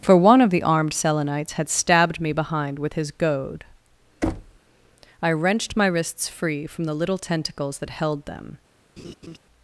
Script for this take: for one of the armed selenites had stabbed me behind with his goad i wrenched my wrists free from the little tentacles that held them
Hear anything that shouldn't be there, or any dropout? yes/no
yes